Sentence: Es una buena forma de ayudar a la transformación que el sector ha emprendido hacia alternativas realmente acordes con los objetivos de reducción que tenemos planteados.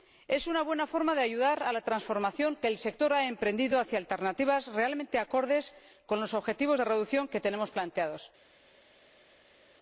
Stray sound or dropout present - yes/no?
no